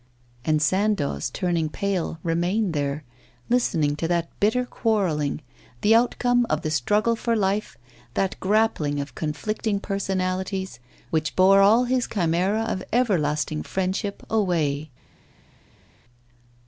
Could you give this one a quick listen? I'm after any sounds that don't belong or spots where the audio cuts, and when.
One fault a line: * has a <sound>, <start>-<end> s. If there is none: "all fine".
all fine